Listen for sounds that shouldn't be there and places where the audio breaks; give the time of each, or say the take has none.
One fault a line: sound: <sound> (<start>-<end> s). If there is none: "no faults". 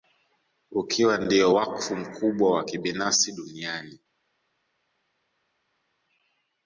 no faults